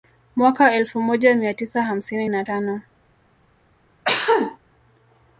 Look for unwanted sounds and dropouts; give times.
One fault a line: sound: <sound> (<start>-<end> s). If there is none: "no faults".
sound: cough (4.1-4.6 s)